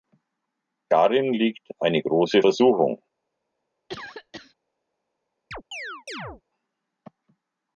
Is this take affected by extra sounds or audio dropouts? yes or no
yes